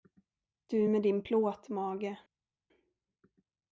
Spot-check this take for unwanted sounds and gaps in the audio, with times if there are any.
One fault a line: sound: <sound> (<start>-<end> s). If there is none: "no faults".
no faults